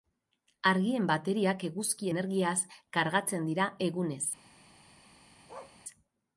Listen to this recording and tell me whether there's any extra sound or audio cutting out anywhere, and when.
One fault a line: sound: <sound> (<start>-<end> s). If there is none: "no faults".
sound: bark (5.5-5.8 s)